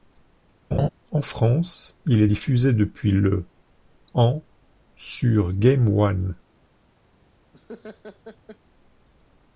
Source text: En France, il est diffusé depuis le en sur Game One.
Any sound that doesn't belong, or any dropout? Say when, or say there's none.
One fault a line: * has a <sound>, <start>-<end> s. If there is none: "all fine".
* has a laugh, 0.7-0.9 s
* has a laugh, 7.5-8.6 s